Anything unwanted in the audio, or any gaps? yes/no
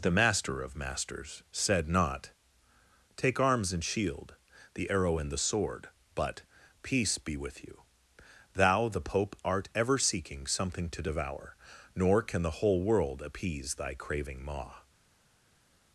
no